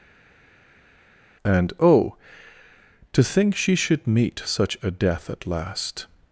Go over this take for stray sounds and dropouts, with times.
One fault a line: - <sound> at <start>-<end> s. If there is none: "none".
none